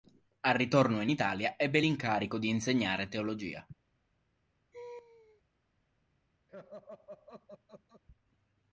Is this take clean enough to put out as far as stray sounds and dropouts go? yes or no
no